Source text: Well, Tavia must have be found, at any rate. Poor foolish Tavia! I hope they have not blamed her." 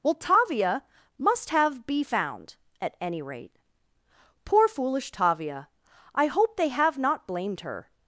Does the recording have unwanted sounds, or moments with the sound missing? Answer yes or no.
no